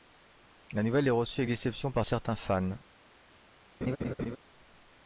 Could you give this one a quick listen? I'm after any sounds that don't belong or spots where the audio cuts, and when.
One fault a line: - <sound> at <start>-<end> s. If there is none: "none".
- laugh at 3.8-4.4 s